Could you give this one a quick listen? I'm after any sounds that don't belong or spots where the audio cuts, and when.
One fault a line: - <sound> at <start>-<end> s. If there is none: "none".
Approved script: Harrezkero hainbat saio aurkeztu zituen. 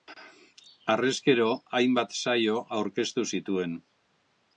none